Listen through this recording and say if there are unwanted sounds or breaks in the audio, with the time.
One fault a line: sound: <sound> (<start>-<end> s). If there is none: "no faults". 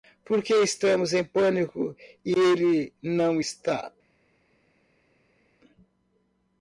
no faults